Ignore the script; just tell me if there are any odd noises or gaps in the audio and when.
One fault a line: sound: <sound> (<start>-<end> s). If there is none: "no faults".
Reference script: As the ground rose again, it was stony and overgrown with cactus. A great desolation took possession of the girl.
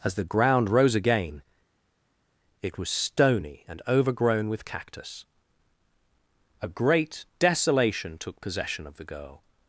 no faults